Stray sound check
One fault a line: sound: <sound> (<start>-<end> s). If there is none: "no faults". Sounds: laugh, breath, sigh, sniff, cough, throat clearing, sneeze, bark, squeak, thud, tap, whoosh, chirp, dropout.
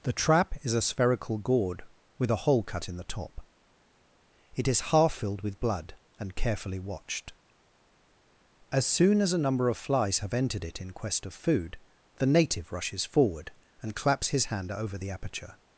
no faults